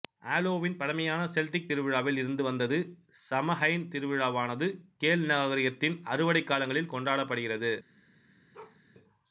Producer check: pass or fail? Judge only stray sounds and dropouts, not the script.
fail